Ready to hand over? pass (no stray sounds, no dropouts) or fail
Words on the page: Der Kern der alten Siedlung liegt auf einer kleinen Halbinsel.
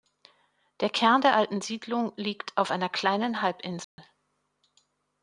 fail